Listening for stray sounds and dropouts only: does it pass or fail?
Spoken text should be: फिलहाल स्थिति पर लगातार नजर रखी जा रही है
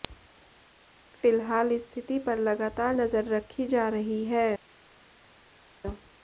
pass